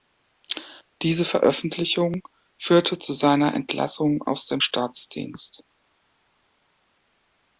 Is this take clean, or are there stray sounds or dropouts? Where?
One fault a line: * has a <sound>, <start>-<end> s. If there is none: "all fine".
all fine